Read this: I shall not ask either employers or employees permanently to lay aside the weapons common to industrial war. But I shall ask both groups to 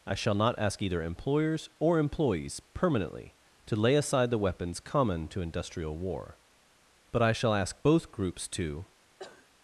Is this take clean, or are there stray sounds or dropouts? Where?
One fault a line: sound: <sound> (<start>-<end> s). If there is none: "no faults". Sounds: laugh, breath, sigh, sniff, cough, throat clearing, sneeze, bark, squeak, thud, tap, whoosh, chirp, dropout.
sound: cough (9.2-9.5 s)